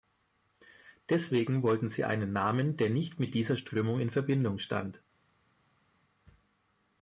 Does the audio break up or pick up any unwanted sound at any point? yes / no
no